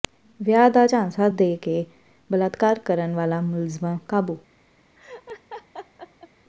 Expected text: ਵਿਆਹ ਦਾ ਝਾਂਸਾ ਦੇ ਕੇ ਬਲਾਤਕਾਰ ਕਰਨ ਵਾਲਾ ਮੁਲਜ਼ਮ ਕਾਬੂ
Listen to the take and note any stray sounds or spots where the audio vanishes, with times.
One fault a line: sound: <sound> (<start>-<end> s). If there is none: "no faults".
sound: laugh (5.0-6.3 s)